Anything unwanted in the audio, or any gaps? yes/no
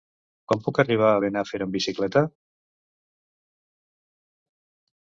no